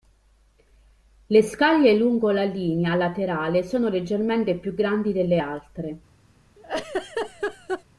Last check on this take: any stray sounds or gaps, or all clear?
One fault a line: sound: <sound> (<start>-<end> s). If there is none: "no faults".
sound: laugh (6.6-7.8 s)